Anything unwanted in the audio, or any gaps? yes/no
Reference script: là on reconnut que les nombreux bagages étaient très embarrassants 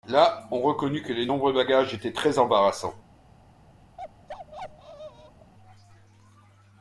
yes